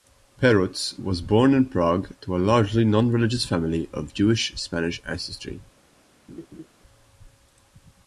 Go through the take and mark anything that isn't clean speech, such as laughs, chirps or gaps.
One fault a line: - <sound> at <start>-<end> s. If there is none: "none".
- laugh at 6.3-6.7 s